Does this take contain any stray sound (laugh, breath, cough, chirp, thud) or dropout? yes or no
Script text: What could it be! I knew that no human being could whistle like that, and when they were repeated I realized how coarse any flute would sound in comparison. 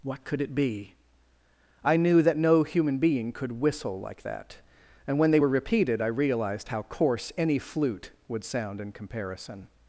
no